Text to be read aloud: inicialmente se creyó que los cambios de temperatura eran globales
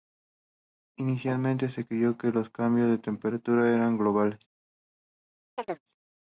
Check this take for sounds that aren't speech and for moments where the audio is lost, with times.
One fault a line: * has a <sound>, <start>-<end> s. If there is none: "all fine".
* has a chirp, 5.6-5.8 s